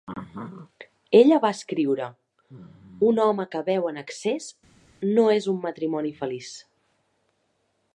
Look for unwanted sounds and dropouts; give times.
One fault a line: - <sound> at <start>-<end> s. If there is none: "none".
none